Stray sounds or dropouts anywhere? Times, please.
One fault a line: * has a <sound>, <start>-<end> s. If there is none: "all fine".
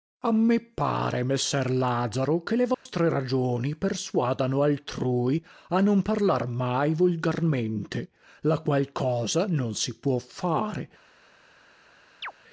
* has a dropout, 2.7-2.9 s
* has a chirp, 12.2-12.3 s